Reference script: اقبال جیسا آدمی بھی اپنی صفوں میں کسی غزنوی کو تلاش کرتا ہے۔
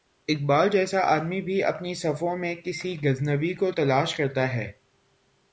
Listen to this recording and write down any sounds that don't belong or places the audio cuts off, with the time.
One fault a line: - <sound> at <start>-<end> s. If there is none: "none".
none